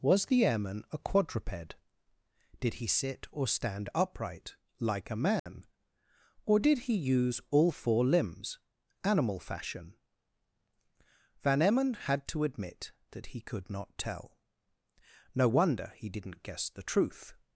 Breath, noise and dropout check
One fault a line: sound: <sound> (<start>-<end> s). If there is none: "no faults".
sound: dropout (5.4-5.5 s)